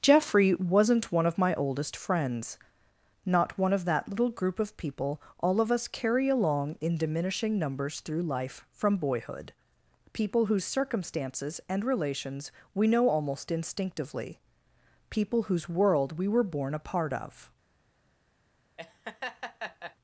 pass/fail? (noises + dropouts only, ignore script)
fail